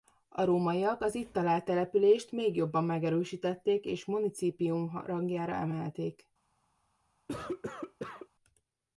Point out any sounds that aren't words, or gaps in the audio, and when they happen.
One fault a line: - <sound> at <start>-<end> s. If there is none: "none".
- cough at 7.3-8.3 s